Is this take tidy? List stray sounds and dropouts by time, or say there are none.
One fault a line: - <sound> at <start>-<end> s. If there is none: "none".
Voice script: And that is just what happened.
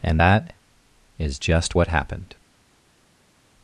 none